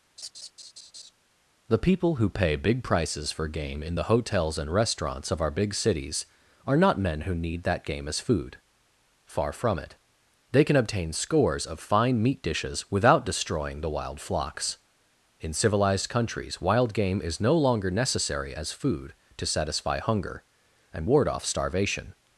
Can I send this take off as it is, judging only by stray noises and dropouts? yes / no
no